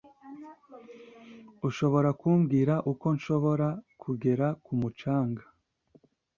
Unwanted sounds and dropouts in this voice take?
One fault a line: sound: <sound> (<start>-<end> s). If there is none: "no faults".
no faults